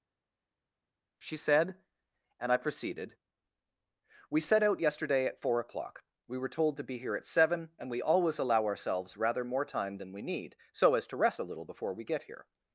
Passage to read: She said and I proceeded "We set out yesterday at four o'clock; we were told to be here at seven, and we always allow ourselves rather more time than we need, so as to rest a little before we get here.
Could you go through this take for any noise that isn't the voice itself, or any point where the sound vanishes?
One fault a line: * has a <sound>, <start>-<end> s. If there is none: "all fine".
all fine